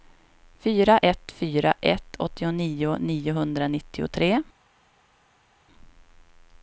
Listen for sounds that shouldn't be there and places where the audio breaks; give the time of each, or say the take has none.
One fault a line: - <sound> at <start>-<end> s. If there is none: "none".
none